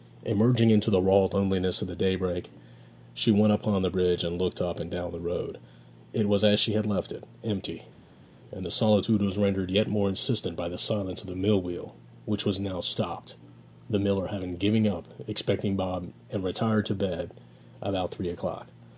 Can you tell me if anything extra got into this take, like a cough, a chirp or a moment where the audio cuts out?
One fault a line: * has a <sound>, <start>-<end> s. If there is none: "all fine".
all fine